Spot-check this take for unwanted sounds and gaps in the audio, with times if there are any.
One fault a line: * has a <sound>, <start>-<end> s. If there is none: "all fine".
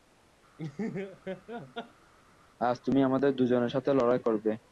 * has a laugh, 0.6-2.1 s